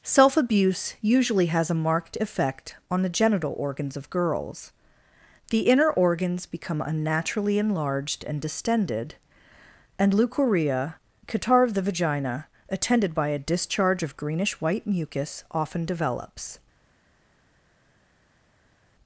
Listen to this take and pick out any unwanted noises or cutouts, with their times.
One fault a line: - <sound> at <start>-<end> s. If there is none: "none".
none